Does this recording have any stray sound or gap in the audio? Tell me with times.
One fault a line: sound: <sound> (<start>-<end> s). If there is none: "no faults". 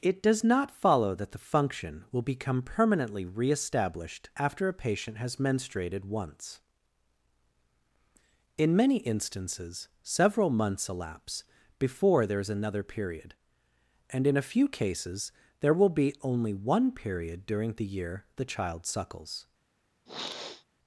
sound: sniff (20.1-20.7 s)